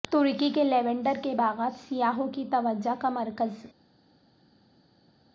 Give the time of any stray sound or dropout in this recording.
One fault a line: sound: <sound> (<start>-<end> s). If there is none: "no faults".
no faults